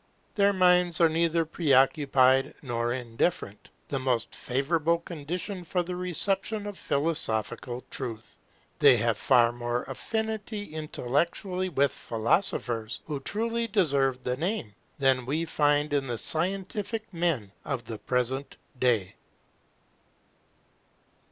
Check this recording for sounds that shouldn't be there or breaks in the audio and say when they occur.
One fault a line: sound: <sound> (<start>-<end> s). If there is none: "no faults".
no faults